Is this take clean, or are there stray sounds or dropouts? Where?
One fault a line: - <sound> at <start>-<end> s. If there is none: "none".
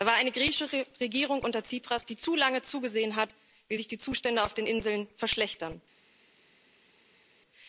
none